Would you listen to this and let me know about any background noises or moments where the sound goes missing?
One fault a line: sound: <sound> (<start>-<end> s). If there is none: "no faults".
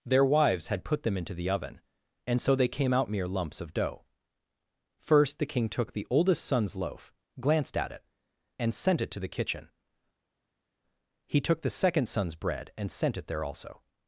no faults